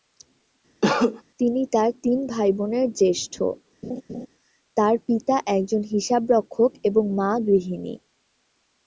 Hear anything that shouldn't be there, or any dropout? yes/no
yes